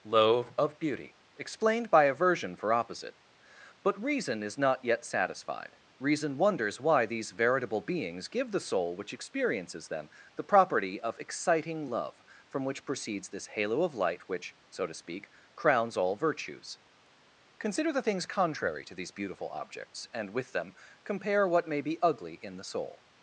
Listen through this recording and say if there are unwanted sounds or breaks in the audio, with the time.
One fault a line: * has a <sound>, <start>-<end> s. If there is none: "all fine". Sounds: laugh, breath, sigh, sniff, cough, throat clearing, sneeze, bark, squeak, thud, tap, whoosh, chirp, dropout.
all fine